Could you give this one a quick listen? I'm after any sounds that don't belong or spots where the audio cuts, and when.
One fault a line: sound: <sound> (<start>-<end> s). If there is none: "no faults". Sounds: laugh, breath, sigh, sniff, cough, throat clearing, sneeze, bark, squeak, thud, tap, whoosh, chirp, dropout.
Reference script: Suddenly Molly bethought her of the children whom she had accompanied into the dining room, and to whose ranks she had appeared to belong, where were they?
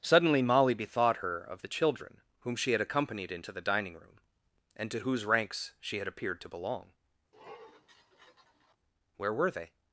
sound: sniff (7.3-8.8 s)